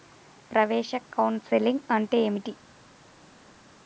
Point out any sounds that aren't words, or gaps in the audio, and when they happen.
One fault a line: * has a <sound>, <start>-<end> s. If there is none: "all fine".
all fine